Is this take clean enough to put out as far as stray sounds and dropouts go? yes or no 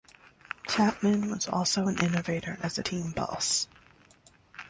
yes